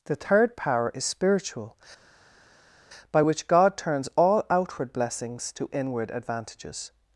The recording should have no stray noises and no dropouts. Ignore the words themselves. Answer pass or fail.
pass